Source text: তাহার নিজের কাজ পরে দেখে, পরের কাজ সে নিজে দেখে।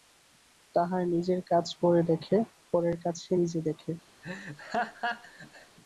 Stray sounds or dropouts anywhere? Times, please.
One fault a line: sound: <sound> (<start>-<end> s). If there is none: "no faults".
sound: laugh (4.2-5.8 s)